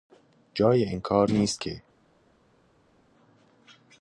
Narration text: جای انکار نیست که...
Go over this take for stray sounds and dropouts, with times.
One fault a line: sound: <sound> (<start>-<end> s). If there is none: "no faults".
no faults